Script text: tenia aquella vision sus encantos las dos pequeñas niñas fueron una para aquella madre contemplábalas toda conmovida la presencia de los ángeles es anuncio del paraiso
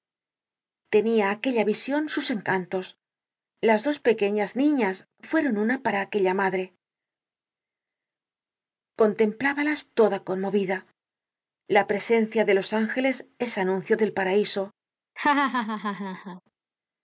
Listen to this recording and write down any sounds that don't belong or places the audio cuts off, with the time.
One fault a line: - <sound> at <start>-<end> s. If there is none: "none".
- laugh at 15.2-16.4 s